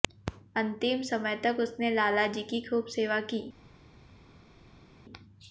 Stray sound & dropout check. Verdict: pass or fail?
pass